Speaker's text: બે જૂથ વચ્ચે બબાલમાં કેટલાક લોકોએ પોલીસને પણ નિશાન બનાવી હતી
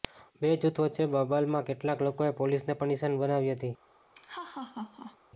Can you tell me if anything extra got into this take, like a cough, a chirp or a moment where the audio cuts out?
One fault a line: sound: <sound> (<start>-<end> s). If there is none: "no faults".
sound: laugh (4.1-5.2 s)